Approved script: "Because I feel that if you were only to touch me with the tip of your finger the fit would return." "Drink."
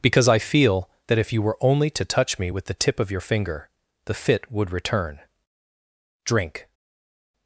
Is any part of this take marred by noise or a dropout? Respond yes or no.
no